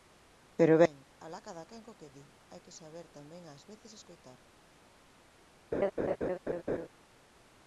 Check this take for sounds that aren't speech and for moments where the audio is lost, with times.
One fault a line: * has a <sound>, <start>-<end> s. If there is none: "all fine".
* has a laugh, 5.7-6.9 s